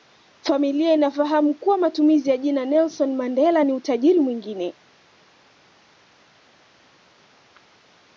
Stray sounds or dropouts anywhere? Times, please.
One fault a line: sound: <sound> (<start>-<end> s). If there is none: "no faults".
no faults